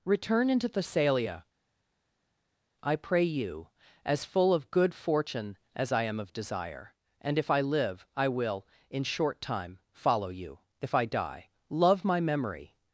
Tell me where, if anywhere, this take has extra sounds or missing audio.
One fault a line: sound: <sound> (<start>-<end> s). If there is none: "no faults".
no faults